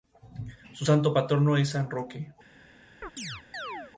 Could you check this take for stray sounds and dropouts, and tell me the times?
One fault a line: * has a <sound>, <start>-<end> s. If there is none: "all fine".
* has a chirp, 3.0-3.9 s